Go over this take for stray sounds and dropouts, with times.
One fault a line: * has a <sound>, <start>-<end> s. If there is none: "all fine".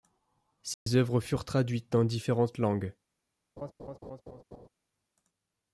* has a dropout, 0.7-0.9 s
* has a laugh, 3.6-4.7 s